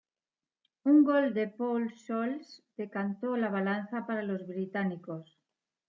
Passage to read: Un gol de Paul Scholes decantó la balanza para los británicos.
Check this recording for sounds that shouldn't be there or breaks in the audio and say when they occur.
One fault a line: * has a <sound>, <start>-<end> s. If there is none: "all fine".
all fine